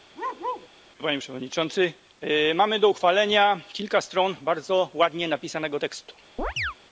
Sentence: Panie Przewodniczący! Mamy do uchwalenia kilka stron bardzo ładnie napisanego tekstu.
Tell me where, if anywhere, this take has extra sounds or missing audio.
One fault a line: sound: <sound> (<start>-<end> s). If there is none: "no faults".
sound: bark (0.1-0.7 s)
sound: chirp (6.4-6.7 s)